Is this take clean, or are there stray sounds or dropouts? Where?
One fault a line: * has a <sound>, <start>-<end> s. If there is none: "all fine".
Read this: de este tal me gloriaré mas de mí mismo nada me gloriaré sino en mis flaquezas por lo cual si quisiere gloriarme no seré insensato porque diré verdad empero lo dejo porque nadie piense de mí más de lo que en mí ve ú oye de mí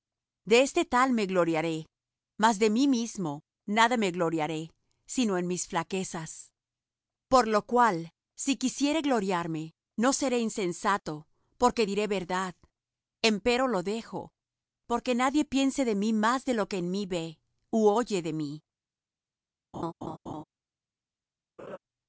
* has a laugh, 19.7-20.4 s
* has a laugh, 21.6-21.8 s